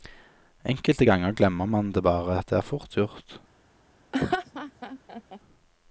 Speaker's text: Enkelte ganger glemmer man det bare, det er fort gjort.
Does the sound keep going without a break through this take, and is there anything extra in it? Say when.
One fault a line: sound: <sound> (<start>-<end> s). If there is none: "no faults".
sound: laugh (4.1-5.4 s)